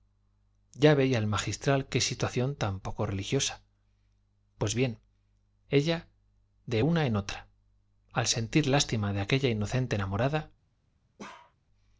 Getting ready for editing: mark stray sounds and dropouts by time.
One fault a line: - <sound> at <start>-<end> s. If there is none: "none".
- bark at 11.2-11.6 s